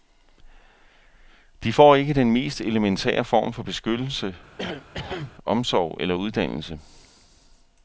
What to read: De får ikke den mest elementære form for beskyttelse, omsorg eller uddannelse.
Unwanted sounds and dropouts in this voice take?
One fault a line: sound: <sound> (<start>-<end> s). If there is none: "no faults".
sound: cough (4.6-5.3 s)